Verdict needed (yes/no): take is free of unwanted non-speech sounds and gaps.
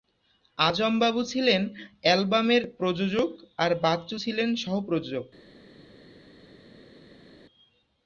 yes